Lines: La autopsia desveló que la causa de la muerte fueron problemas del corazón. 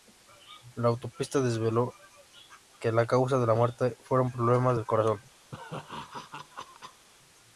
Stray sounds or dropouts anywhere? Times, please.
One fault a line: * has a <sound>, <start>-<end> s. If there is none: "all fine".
* has a laugh, 5.5-7.1 s